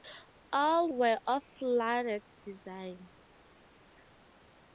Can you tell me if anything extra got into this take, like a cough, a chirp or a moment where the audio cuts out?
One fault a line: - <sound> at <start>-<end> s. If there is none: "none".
none